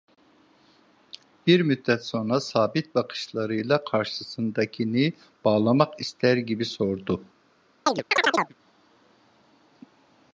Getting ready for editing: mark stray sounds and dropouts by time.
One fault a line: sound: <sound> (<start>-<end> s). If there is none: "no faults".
sound: chirp (7.9-8.5 s)